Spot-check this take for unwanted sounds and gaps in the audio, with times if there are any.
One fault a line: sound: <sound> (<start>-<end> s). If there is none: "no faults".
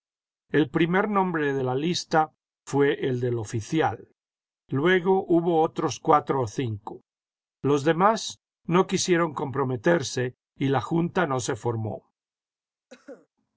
sound: cough (12.9-13.3 s)